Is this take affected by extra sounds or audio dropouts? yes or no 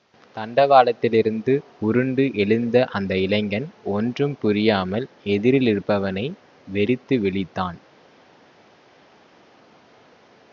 no